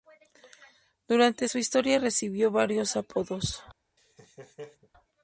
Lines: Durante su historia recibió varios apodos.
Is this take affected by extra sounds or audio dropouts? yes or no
yes